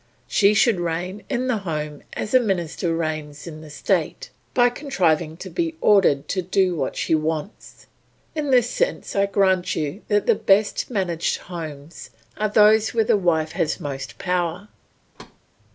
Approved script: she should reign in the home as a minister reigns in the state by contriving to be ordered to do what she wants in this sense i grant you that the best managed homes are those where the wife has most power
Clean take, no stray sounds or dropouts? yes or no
no